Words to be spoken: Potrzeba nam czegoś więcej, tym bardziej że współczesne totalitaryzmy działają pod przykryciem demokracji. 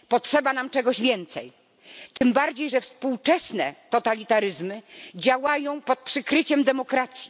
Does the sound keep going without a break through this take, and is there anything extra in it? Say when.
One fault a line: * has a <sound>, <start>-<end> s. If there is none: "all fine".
* has a dropout, 2.2-2.2 s